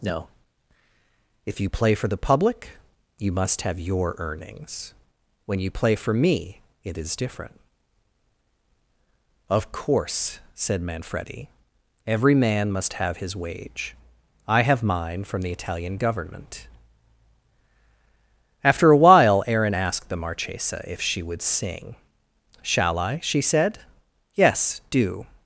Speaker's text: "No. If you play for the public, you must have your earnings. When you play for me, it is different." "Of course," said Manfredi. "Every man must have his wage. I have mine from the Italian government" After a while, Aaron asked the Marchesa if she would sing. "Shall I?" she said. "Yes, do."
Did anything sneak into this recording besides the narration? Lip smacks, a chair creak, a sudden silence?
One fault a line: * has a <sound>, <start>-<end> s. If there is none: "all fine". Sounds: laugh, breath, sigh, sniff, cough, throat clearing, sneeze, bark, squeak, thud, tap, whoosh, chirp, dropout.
all fine